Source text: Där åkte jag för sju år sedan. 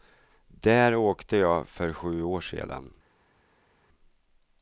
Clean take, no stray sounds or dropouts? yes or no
yes